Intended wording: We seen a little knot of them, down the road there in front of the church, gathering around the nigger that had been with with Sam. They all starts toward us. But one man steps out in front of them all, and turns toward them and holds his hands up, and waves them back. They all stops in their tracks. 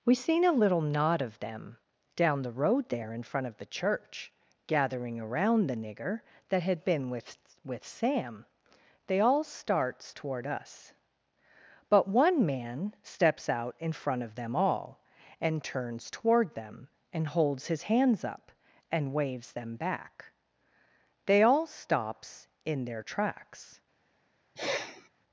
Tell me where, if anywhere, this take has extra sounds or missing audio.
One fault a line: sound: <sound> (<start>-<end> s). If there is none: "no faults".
sound: sniff (24.6-25.1 s)